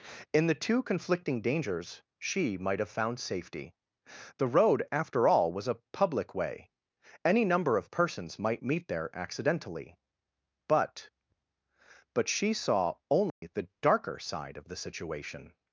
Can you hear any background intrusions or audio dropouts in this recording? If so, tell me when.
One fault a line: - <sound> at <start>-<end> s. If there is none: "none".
- dropout at 13.3-13.4 s